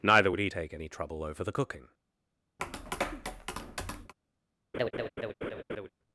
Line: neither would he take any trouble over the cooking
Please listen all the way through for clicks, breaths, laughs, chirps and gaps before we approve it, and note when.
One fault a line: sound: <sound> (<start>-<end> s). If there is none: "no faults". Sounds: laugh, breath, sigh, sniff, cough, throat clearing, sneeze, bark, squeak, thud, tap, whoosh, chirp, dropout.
sound: tap (2.6-4.1 s)
sound: laugh (4.7-5.9 s)